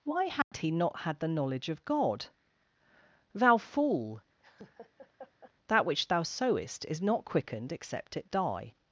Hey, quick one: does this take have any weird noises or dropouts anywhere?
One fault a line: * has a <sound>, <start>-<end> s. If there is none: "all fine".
* has a dropout, 0.4-0.5 s
* has a laugh, 4.4-5.5 s